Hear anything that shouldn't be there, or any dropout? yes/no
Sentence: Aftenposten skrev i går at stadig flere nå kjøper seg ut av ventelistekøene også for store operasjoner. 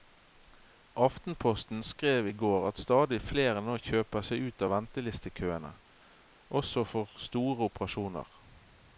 no